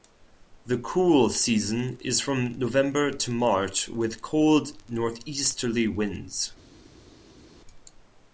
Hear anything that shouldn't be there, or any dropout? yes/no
no